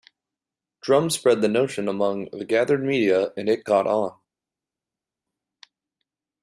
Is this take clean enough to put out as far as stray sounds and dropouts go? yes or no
yes